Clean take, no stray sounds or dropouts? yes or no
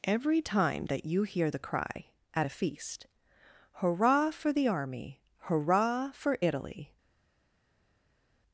yes